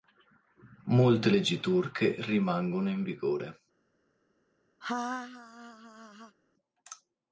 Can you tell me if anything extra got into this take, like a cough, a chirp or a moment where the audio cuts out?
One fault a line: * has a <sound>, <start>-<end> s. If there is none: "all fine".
* has a laugh, 4.8-6.4 s